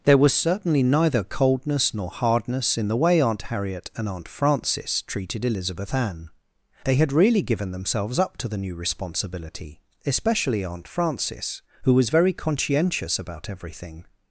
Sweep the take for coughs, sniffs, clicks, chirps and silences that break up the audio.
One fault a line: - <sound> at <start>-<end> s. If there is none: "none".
none